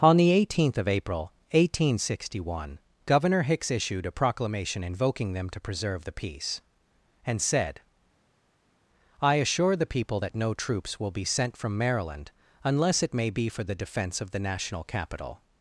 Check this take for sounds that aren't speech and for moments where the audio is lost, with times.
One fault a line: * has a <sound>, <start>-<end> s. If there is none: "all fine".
all fine